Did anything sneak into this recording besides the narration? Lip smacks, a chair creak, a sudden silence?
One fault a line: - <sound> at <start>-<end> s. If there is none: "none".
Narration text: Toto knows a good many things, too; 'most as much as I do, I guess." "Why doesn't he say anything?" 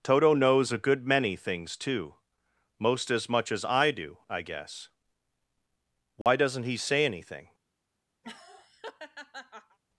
- dropout at 6.2-6.3 s
- laugh at 8.2-9.8 s